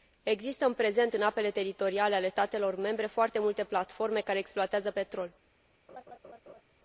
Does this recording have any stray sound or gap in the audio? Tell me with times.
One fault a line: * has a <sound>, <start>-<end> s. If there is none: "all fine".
* has a laugh, 5.9-6.6 s